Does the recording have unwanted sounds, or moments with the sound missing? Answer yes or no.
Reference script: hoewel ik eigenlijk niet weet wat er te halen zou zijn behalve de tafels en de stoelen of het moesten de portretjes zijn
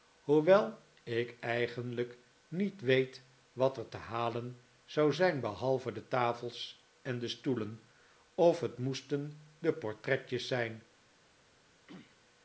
yes